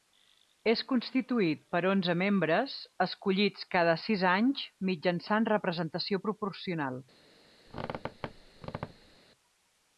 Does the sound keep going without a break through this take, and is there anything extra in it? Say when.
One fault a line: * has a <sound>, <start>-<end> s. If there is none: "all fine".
* has a squeak, 7.7-9.2 s